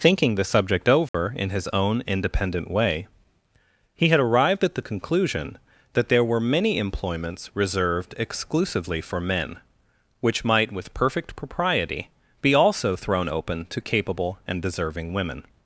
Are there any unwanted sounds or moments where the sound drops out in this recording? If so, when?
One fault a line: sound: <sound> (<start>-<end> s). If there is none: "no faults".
sound: dropout (1.1-1.1 s)